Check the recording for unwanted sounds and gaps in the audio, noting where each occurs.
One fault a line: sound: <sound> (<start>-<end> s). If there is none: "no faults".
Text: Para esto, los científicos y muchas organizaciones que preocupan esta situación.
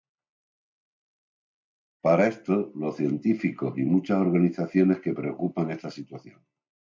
no faults